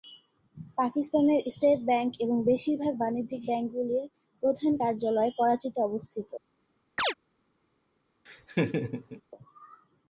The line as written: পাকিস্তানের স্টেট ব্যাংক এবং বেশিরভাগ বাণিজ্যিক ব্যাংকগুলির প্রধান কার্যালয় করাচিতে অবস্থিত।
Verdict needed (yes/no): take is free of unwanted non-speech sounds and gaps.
no